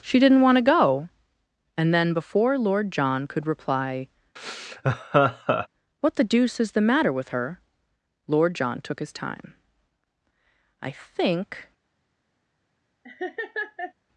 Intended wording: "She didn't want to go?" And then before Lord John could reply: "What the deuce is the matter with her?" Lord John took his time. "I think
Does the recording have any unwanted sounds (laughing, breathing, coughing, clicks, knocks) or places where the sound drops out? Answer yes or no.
yes